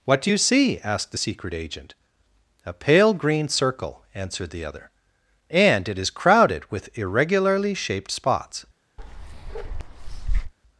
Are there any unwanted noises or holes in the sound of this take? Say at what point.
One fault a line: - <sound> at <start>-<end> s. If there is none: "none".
- bark at 9.0-10.5 s